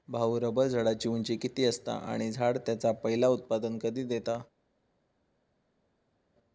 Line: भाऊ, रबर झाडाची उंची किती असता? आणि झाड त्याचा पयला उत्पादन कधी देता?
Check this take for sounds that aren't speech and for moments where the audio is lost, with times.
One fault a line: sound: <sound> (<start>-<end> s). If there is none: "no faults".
no faults